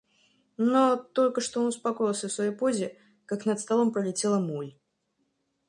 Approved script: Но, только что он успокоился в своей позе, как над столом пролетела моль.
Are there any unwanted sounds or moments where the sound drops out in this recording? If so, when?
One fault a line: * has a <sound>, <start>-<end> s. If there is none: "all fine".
all fine